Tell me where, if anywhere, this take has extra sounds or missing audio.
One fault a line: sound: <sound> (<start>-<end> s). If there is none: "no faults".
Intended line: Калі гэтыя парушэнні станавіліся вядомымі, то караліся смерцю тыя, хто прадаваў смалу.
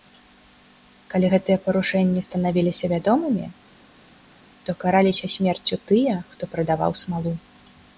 no faults